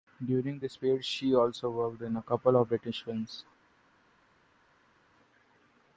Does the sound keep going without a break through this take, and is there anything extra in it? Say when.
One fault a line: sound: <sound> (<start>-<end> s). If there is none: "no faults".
no faults